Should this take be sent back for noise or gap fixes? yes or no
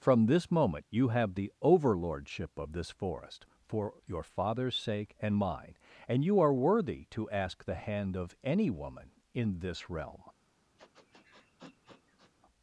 yes